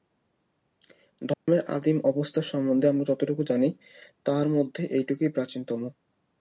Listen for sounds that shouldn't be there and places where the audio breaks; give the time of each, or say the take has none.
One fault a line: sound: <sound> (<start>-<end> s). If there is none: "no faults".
sound: dropout (1.3-1.5 s)